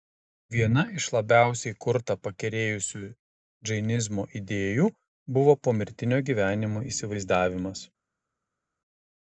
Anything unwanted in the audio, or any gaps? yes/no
no